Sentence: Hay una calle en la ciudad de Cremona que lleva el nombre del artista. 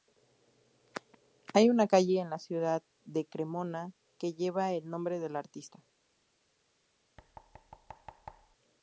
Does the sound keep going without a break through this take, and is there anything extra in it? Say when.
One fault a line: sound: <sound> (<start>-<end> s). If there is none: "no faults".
sound: thud (7.2-8.6 s)